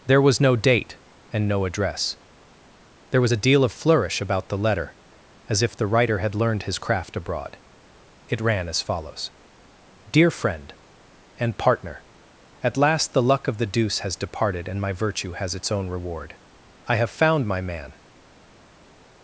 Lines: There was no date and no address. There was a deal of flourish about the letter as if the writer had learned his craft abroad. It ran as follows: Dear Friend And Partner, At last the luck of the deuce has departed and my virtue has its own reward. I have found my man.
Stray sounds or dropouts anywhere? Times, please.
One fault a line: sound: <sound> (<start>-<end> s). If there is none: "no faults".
no faults